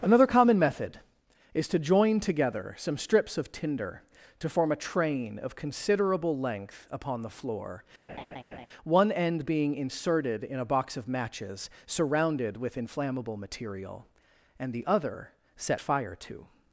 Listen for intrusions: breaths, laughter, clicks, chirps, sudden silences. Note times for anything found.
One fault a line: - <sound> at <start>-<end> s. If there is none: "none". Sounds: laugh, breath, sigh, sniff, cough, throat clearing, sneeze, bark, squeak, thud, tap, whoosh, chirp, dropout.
- laugh at 8.1-8.7 s